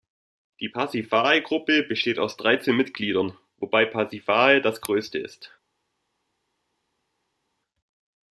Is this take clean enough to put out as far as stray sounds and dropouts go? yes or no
yes